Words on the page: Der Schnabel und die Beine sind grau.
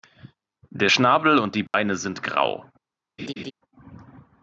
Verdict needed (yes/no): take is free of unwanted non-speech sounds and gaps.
no